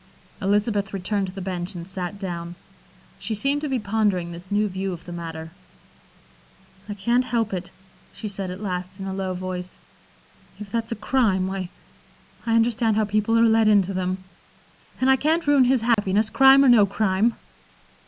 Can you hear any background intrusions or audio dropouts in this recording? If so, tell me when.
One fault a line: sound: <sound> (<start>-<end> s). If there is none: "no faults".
sound: dropout (15.9-16.0 s)